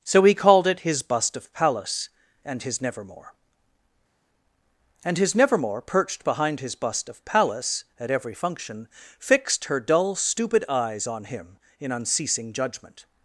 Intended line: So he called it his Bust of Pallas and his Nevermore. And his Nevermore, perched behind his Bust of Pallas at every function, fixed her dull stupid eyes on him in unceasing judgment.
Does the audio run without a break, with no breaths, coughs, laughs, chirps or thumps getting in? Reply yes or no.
yes